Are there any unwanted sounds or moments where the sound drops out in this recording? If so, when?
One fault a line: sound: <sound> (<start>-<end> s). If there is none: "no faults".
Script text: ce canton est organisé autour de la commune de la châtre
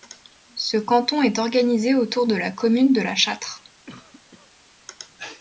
sound: cough (3.9-4.5 s)